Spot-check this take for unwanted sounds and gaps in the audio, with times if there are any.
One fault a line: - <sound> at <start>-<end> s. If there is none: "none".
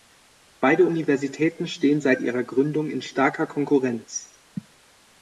none